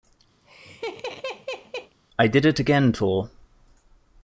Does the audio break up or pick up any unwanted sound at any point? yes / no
yes